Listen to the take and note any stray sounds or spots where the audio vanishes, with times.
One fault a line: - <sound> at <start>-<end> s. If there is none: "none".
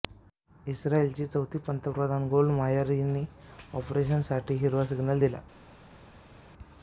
none